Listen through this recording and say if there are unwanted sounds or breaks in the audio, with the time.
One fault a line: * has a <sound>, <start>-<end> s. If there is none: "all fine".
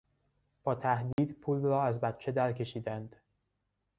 * has a dropout, 1.1-1.2 s